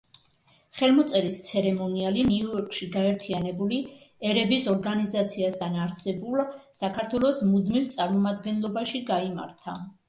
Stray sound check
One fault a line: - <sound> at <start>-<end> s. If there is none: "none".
none